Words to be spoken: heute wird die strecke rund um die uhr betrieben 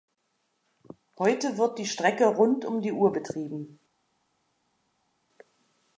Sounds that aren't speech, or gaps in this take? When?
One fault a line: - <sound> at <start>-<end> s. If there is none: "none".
none